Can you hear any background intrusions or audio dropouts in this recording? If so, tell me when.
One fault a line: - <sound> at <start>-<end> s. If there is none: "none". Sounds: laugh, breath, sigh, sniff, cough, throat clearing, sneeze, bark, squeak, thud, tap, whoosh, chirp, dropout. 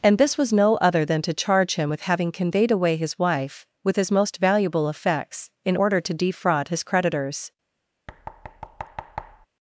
- thud at 8.1-9.5 s